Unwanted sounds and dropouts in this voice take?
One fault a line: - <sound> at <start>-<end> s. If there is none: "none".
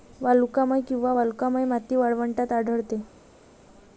none